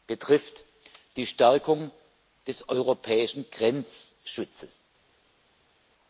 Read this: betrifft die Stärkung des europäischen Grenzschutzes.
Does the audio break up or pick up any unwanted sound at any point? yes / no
no